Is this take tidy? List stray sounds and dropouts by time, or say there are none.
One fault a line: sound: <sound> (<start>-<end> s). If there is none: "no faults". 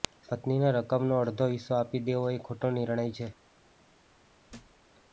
sound: thud (4.5-4.8 s)